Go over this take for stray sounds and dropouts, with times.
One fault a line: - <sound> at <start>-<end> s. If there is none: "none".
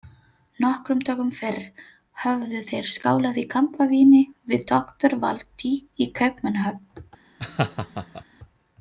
- laugh at 7.4-8.2 s